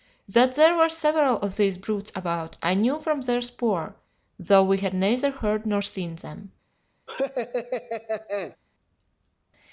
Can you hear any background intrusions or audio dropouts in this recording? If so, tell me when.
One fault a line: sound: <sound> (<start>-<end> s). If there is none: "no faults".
sound: laugh (7.1-8.6 s)